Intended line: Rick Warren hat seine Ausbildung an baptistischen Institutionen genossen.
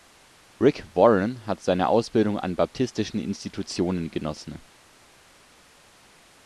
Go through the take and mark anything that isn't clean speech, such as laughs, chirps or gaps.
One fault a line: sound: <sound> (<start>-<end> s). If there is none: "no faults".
no faults